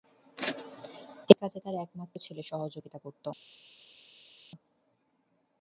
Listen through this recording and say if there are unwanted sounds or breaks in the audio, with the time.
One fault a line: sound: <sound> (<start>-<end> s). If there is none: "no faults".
no faults